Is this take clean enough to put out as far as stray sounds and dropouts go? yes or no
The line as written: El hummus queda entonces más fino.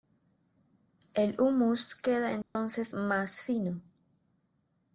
no